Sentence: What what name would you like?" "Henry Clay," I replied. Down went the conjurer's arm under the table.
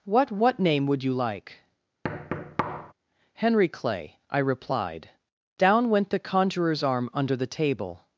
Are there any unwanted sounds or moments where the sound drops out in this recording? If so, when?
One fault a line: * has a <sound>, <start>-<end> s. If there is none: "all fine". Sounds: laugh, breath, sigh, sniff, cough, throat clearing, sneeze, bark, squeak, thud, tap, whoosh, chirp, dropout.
* has a thud, 2.0-2.9 s